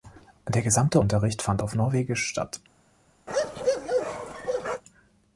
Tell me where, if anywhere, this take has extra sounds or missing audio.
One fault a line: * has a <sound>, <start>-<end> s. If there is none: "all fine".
* has a bark, 3.3-4.8 s